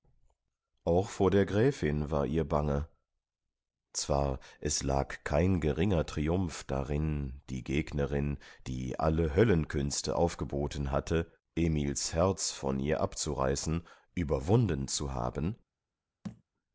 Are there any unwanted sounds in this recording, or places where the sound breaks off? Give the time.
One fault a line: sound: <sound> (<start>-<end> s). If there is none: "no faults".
sound: thud (16.2-16.4 s)